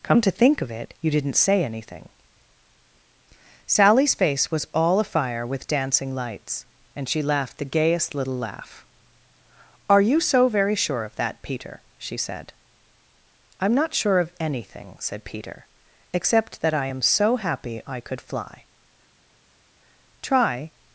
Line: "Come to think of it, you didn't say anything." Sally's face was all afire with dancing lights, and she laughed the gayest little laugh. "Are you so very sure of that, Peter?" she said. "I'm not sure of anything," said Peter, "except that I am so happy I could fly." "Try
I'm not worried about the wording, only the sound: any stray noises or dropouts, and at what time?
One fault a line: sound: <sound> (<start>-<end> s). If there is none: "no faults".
no faults